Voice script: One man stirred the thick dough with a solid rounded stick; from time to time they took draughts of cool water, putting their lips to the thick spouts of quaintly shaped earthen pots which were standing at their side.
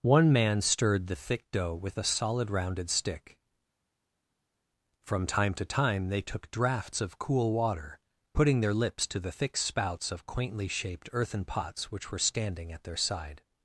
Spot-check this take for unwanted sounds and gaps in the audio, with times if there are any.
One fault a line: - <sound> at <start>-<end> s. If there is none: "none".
none